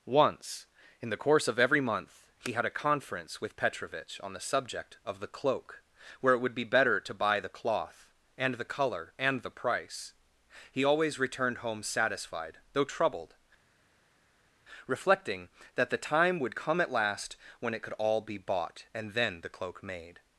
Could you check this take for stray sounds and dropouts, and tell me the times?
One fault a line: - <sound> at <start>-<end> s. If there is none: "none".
none